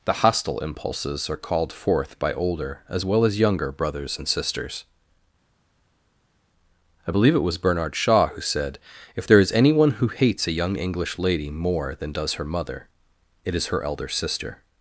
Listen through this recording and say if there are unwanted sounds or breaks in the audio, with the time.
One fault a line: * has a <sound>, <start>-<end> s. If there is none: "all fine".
all fine